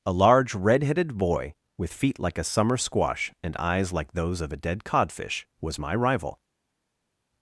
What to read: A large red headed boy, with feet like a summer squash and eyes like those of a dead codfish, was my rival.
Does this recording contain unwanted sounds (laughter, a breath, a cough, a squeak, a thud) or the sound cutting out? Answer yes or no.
no